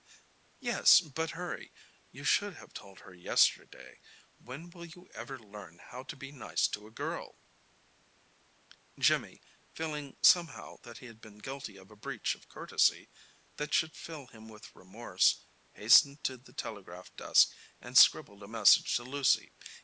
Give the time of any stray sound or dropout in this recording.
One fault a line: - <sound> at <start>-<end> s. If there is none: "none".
none